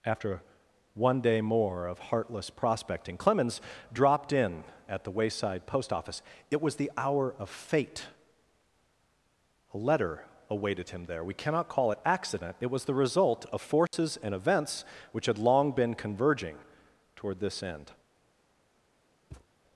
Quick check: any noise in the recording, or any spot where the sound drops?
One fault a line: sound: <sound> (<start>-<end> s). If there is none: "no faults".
sound: dropout (13.9-13.9 s)
sound: thud (19.3-19.5 s)